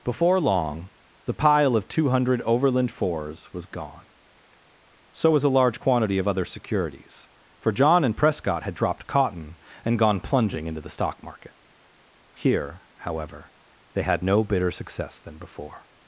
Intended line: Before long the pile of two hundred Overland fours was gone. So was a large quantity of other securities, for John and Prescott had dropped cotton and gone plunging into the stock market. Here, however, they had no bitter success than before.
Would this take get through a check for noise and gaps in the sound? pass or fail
pass